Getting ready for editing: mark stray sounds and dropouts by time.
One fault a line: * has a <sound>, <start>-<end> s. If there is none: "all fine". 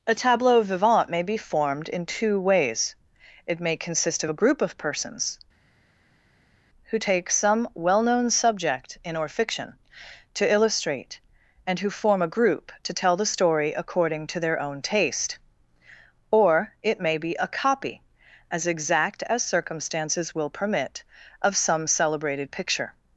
all fine